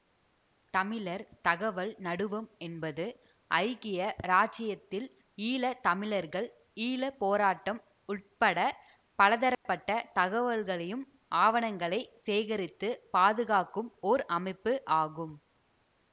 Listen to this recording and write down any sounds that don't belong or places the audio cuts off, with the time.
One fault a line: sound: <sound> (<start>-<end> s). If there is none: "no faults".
sound: dropout (9.5-9.7 s)